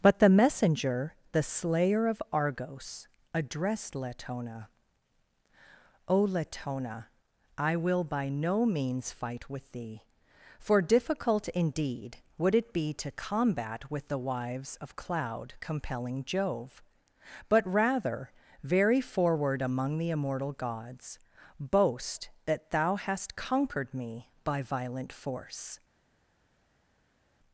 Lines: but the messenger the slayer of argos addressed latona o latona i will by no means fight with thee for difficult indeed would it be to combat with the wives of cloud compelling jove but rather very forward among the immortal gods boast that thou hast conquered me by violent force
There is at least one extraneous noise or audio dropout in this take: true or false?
false